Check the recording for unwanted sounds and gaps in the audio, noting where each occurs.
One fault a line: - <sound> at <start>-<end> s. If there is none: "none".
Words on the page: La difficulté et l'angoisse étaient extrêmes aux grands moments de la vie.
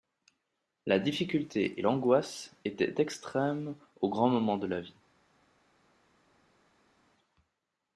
none